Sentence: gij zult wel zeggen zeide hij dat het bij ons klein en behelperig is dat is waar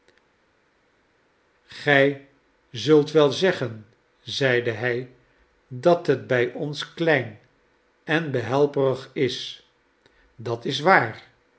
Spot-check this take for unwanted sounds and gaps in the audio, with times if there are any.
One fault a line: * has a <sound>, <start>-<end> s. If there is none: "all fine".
all fine